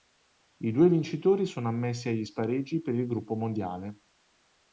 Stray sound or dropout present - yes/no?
no